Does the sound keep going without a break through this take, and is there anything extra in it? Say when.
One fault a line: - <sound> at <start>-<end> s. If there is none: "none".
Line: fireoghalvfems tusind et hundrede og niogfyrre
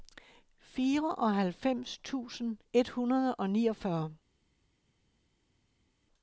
none